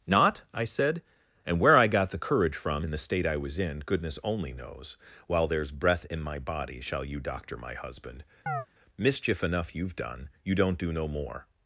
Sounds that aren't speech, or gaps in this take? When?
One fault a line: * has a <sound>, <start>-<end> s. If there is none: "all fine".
* has a chirp, 8.5-8.7 s